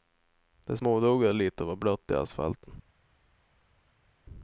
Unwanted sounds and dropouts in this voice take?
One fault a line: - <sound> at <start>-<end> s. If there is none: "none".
none